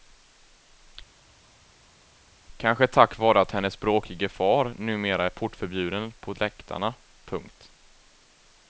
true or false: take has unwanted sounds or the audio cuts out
false